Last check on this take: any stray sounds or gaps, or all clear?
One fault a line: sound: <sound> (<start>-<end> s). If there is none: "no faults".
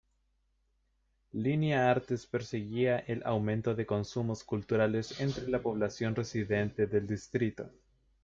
no faults